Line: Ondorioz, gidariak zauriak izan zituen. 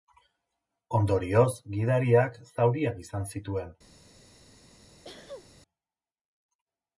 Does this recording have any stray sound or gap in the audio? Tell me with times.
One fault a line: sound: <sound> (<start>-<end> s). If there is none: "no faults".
sound: sneeze (5.0-5.5 s)